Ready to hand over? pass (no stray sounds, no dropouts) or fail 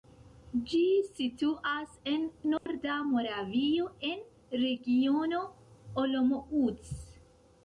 fail